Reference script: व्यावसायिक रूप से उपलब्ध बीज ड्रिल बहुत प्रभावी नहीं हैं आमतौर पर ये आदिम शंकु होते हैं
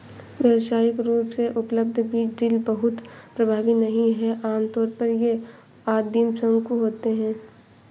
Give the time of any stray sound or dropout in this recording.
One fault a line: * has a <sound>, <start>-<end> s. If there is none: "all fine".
all fine